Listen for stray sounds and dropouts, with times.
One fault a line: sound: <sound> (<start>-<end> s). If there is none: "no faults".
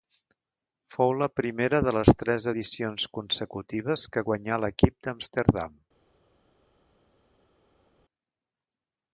no faults